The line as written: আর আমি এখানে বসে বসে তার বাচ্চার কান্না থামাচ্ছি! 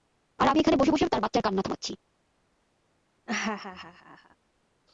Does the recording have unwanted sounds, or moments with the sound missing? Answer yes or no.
yes